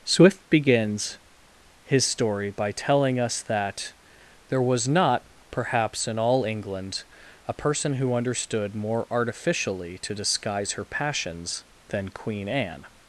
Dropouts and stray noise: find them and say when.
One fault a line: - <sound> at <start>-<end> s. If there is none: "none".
none